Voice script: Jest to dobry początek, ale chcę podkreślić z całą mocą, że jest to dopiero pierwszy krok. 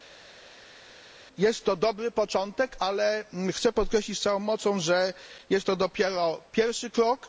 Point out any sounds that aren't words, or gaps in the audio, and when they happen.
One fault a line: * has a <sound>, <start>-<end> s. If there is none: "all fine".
all fine